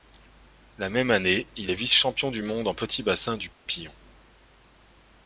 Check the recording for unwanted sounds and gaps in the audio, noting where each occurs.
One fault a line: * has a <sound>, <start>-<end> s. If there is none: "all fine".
* has a dropout, 3.5-3.7 s